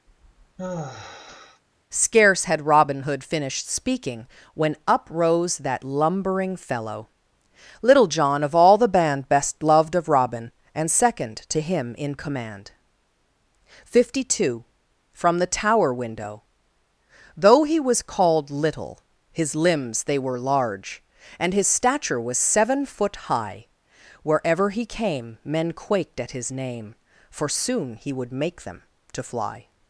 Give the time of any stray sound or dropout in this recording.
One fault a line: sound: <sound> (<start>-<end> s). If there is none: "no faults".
sound: sigh (0.1-1.6 s)